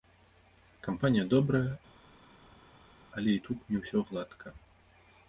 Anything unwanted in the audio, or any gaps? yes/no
no